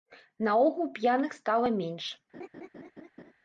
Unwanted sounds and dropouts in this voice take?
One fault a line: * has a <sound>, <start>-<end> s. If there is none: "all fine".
* has a laugh, 2.3-3.3 s